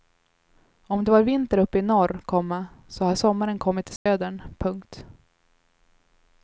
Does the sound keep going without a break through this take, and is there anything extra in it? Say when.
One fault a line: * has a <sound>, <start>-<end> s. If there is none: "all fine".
* has a dropout, 4.0-4.1 s